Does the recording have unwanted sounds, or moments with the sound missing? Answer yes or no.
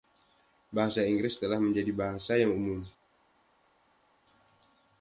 no